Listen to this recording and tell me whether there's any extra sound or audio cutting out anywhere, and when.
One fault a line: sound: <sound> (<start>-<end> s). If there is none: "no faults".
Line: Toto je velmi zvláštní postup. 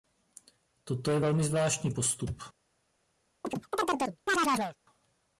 sound: chirp (3.4-4.8 s)